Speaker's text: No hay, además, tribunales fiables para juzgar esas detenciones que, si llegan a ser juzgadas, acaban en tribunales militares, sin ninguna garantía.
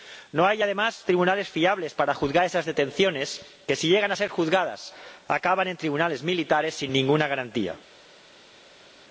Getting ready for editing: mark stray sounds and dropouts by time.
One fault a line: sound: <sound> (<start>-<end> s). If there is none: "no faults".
no faults